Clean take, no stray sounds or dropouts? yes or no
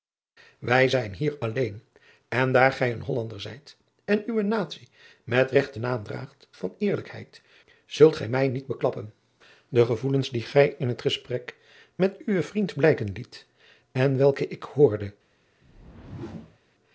no